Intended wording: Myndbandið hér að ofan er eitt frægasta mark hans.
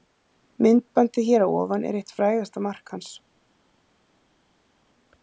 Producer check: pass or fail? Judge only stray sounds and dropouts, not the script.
pass